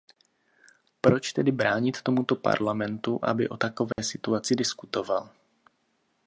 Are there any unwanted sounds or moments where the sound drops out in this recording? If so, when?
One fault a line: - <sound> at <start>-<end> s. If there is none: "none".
- dropout at 3.9-4.0 s